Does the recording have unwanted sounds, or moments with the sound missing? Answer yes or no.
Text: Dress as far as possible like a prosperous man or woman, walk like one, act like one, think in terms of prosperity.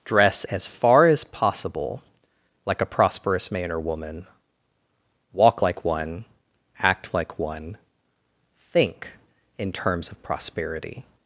no